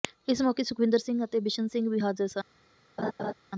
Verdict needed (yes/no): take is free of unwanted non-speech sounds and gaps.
no